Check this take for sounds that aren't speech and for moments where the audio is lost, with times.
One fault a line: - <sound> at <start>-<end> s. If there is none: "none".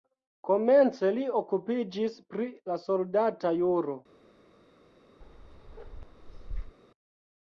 - bark at 5.2-6.8 s